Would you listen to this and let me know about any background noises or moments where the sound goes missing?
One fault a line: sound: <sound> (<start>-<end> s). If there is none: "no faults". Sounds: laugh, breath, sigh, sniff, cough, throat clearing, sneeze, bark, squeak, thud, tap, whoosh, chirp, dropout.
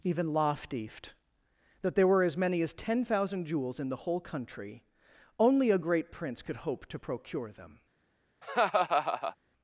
sound: laugh (8.4-9.4 s)